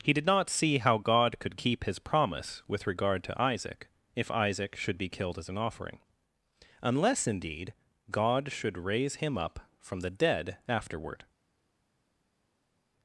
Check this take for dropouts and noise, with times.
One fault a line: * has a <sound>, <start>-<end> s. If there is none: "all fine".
all fine